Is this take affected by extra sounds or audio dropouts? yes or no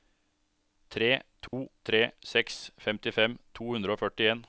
yes